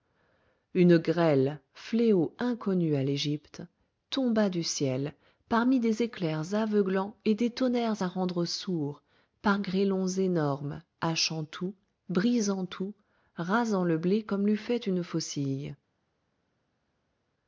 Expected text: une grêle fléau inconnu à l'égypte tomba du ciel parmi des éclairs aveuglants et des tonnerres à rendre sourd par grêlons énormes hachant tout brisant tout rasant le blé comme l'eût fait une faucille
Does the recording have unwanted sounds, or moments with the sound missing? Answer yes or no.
no